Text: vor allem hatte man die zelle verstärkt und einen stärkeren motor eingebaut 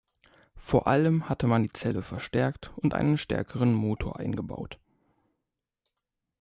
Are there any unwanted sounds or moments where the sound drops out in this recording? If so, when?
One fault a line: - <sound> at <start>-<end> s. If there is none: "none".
none